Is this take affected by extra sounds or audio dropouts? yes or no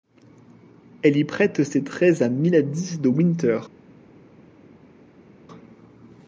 no